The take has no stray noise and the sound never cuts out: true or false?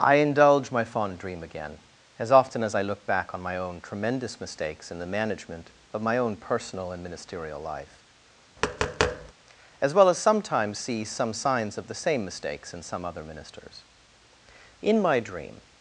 false